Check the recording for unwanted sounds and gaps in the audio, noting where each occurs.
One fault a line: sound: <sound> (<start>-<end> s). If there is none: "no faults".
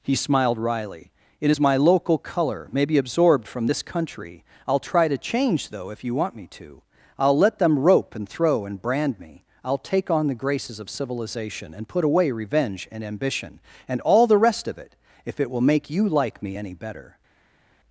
no faults